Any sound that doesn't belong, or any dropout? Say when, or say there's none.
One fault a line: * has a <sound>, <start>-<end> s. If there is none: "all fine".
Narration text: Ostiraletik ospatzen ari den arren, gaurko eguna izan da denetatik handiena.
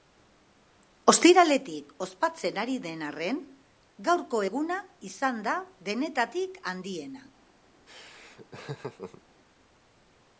* has a laugh, 7.9-9.2 s